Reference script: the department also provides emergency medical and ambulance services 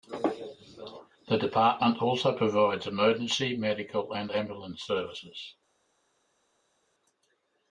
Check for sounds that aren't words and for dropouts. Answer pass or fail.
pass